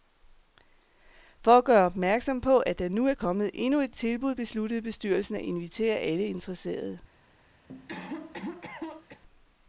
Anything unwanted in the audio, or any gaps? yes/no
yes